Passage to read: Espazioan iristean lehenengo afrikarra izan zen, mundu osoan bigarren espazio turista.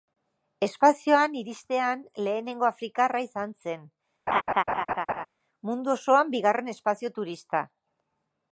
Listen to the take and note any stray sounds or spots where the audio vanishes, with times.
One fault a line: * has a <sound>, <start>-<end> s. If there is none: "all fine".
* has a laugh, 4.3-5.3 s